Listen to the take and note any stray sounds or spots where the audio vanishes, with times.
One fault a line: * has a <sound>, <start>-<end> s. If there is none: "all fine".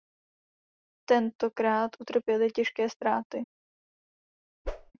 * has a whoosh, 4.6-4.9 s